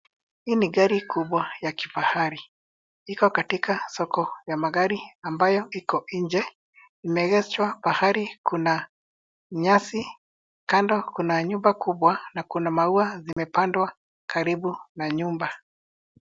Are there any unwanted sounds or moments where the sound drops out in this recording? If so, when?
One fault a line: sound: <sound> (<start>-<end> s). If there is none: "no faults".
sound: dropout (13.3-13.4 s)